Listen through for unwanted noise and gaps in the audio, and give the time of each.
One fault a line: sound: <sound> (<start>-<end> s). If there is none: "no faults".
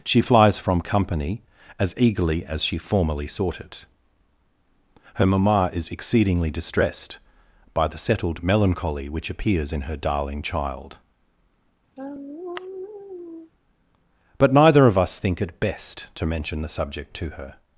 sound: sigh (12.0-13.5 s)